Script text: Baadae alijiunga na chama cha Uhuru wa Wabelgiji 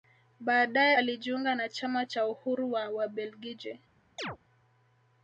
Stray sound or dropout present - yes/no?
yes